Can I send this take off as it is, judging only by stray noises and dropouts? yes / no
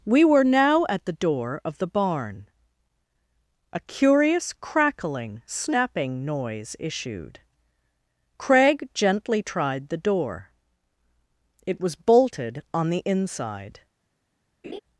no